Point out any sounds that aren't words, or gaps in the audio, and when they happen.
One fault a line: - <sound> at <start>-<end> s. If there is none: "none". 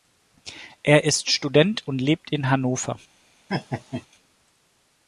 - laugh at 3.5-4.1 s